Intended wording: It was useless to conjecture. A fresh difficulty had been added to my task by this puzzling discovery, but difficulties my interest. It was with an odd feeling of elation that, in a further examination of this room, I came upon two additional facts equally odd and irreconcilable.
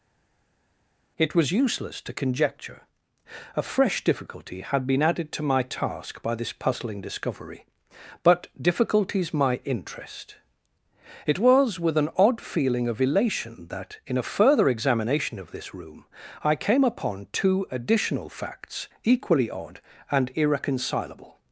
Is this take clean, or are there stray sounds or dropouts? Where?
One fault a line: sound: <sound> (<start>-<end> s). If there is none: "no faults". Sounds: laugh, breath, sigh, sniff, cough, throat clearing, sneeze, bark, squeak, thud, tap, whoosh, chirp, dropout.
no faults